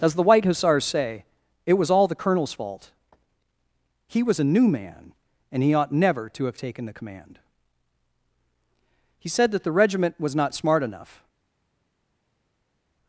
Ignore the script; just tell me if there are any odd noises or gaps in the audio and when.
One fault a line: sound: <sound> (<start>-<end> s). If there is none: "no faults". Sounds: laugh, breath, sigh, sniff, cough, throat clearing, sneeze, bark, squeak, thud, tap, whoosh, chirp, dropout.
no faults